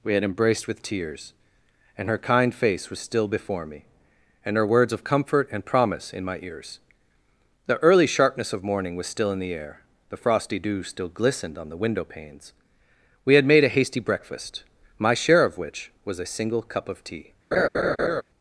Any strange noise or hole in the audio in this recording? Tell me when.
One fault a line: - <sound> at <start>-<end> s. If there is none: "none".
- laugh at 17.5-18.2 s